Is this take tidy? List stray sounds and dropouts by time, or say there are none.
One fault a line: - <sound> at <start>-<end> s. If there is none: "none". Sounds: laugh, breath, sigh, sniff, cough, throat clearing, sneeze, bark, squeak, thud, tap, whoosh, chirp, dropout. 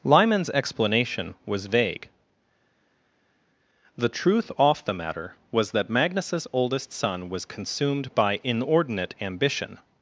none